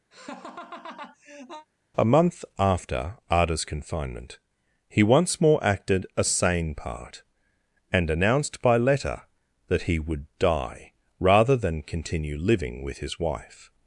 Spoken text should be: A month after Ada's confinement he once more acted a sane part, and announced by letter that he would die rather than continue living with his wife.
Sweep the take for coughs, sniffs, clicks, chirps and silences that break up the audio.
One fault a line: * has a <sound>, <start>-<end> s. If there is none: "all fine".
* has a laugh, 0.1-1.7 s